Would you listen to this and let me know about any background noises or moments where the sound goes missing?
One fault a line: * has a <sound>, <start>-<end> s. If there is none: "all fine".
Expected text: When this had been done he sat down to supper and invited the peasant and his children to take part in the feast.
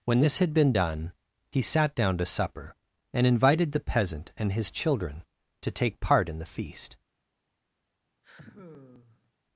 * has a sigh, 8.2-9.3 s